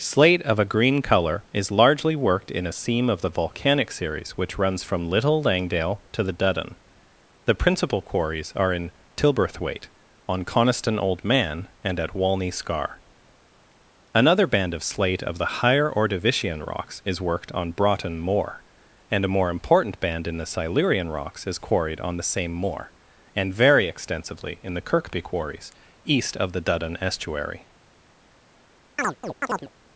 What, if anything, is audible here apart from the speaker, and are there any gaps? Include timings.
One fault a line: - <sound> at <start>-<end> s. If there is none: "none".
- chirp at 29.0-29.7 s